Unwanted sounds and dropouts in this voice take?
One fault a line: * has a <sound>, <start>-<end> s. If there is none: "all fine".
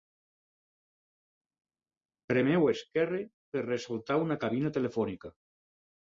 all fine